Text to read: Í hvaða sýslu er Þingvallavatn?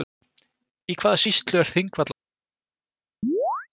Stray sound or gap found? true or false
true